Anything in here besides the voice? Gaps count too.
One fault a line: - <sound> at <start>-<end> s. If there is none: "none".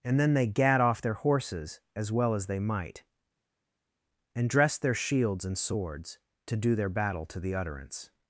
none